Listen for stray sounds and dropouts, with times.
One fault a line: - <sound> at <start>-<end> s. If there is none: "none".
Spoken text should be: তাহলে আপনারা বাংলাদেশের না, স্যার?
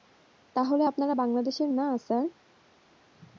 none